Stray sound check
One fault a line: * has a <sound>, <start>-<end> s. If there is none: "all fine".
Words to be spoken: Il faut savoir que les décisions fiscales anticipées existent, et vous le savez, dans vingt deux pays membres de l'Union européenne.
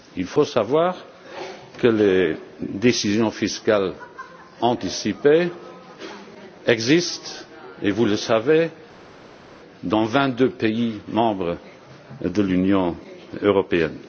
all fine